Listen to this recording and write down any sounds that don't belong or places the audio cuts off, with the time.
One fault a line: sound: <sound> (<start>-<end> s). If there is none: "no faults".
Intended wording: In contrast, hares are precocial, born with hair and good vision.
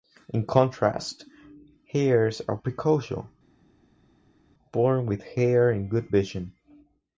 no faults